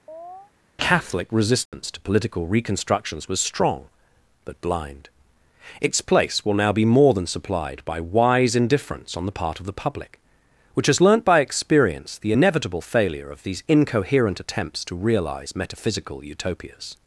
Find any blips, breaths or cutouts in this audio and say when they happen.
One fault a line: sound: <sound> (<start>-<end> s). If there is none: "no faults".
sound: chirp (0.1-0.5 s)
sound: dropout (1.7-1.7 s)